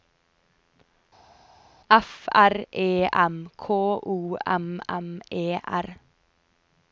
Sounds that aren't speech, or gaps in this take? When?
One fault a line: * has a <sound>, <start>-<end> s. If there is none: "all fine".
all fine